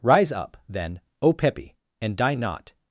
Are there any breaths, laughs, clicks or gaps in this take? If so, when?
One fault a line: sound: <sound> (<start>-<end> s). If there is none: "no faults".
no faults